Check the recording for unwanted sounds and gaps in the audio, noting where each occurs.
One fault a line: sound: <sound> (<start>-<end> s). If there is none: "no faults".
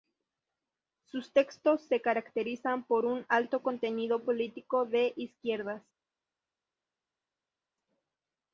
no faults